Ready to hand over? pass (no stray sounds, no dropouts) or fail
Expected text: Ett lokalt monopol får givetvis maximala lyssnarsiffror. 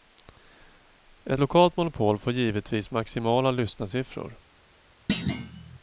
fail